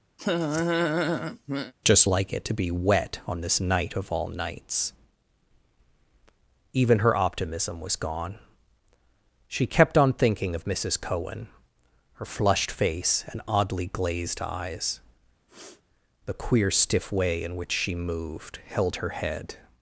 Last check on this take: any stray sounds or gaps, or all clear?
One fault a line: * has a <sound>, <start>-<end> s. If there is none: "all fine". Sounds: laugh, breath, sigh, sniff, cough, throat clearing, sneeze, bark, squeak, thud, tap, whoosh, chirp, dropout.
* has a laugh, 0.2-1.7 s
* has a sniff, 15.5-15.8 s